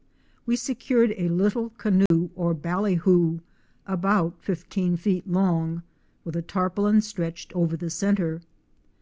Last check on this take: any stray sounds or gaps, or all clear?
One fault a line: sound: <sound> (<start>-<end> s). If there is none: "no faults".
sound: dropout (2.1-2.1 s)